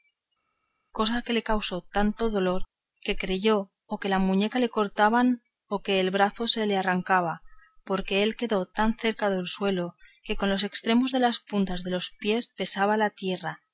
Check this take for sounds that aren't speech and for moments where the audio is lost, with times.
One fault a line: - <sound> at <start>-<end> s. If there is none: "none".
none